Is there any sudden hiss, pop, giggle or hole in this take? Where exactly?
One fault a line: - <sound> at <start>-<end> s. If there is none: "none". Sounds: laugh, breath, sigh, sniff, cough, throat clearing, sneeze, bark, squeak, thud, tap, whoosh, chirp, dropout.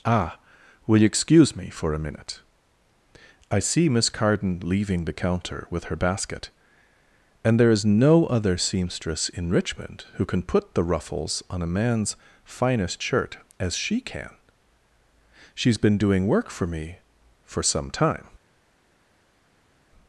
none